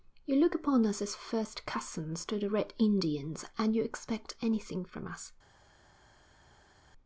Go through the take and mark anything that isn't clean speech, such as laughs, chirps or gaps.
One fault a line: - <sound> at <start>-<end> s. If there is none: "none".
none